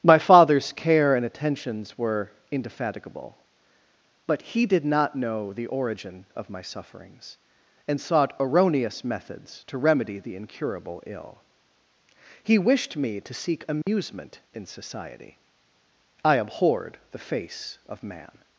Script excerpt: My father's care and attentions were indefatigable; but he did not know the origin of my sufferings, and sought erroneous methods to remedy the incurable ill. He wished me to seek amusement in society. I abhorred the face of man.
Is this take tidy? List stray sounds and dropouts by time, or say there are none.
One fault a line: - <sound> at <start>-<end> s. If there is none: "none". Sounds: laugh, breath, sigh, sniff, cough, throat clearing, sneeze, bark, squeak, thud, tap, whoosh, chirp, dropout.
- dropout at 13.8-13.9 s